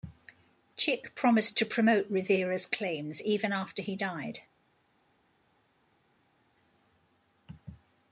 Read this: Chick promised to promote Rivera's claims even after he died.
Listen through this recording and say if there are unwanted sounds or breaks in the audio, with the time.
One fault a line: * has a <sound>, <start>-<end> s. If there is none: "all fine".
all fine